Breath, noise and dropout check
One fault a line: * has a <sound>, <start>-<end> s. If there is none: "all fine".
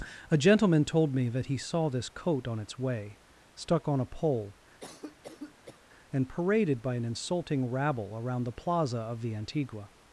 * has a cough, 4.8-5.8 s